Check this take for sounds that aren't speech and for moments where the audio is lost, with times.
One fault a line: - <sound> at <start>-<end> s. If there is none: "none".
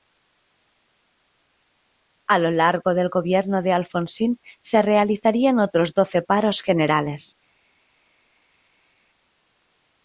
none